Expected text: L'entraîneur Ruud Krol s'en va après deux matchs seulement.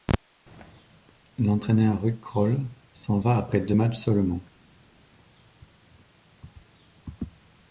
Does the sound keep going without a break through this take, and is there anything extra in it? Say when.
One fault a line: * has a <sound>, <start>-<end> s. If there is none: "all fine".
all fine